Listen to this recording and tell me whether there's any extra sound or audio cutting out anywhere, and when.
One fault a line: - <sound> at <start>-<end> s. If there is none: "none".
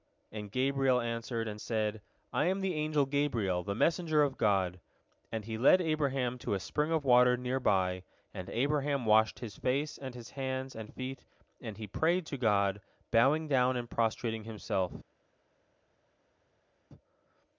none